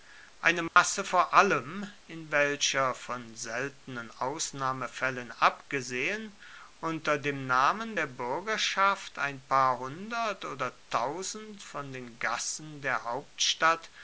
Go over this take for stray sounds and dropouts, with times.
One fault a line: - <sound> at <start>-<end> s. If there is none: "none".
- dropout at 0.7-0.8 s